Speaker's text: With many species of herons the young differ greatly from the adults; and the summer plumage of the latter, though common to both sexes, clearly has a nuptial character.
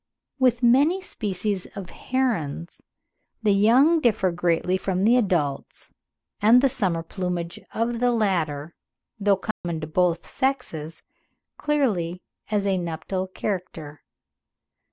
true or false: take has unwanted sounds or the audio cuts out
true